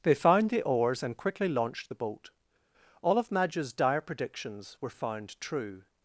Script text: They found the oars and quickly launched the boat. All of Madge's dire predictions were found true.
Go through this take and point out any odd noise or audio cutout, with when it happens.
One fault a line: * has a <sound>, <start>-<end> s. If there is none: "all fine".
all fine